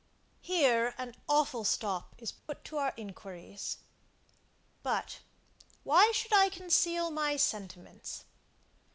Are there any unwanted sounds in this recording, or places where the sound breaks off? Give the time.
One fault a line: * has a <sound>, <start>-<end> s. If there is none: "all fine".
* has a dropout, 2.4-2.5 s